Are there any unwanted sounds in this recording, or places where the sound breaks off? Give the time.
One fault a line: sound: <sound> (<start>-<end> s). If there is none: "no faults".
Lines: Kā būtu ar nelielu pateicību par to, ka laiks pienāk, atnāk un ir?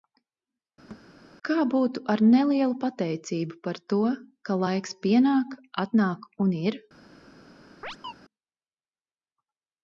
sound: thud (0.9-1.1 s)
sound: chirp (7.8-8.1 s)